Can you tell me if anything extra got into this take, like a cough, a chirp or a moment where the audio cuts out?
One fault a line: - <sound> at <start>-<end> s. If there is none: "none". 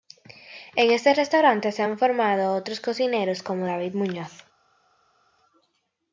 none